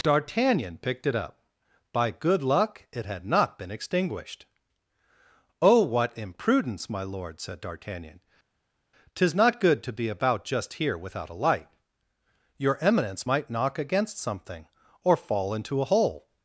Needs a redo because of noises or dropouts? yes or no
no